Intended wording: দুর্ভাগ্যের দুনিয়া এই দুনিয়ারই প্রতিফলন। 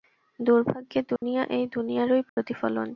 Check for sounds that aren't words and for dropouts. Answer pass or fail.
fail